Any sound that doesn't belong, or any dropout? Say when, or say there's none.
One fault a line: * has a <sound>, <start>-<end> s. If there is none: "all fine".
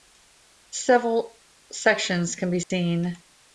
* has a dropout, 2.6-2.7 s